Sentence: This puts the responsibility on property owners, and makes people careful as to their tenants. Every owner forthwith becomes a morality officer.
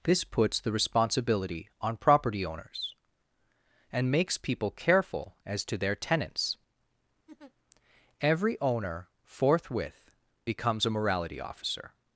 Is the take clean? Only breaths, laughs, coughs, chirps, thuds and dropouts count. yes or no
no